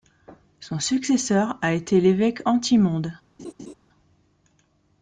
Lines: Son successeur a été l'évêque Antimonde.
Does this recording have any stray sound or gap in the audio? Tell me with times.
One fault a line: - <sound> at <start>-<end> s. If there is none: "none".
- laugh at 3.4-3.7 s